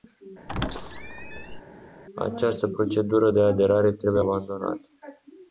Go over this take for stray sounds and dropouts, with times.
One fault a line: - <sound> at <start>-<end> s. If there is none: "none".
- squeak at 0.5-1.6 s